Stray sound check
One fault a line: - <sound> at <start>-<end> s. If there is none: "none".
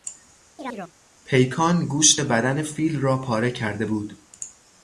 - chirp at 0.6-0.9 s